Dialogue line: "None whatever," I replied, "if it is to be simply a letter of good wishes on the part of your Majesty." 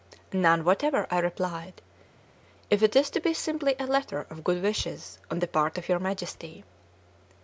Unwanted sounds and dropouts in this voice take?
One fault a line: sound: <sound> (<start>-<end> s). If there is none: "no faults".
no faults